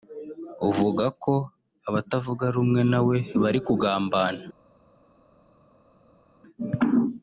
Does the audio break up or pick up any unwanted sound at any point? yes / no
no